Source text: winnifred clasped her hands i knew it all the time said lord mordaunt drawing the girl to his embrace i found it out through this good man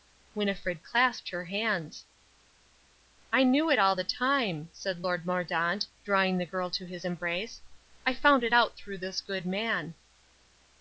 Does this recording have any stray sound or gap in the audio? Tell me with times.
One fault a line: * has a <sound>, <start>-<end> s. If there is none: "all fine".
all fine